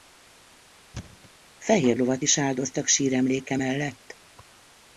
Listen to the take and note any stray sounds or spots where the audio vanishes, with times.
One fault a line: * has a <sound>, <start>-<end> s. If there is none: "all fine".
* has a thud, 0.9-1.3 s